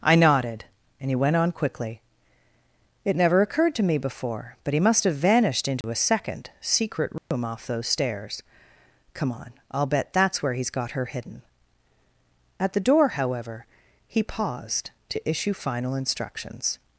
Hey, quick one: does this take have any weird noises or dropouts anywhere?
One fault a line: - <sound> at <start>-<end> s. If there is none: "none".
- dropout at 5.8-5.8 s
- dropout at 7.2-7.3 s